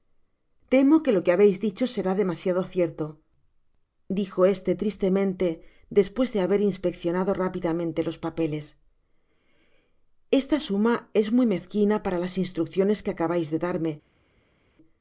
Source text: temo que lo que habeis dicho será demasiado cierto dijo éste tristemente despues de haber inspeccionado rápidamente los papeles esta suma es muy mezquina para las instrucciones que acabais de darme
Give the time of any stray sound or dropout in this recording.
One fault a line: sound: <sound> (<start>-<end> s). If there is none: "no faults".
no faults